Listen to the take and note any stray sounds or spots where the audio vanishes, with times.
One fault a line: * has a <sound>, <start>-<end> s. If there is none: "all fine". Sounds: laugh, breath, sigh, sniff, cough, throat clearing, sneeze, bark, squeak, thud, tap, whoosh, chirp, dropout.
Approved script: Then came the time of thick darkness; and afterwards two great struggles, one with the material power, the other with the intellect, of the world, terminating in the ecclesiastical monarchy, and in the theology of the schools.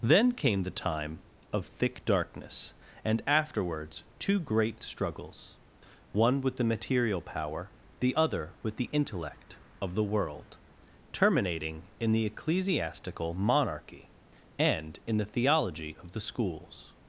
all fine